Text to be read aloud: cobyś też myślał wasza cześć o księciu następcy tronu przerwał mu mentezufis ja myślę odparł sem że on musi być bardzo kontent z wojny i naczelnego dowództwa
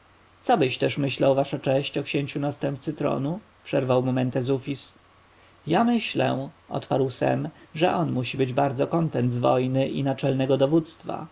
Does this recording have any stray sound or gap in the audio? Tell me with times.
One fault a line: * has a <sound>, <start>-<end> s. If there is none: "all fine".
all fine